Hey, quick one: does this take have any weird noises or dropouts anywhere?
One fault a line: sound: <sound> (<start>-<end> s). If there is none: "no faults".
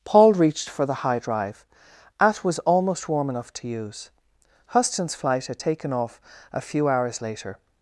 no faults